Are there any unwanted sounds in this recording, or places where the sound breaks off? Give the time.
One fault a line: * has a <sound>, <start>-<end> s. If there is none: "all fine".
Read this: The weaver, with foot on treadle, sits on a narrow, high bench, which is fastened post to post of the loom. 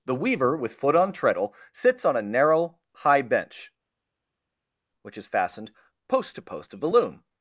all fine